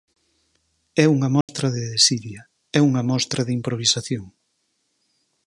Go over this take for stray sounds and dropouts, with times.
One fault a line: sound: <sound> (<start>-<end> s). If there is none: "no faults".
sound: dropout (1.4-1.5 s)